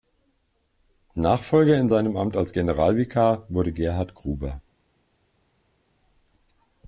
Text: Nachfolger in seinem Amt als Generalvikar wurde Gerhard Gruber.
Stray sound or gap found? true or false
false